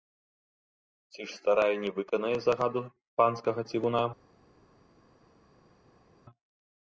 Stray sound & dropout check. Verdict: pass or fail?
pass